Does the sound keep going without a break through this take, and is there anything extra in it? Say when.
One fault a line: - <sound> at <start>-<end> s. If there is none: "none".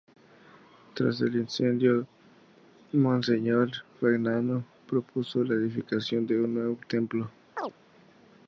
- chirp at 7.6-7.7 s